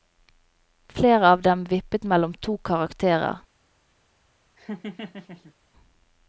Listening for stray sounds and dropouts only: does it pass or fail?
fail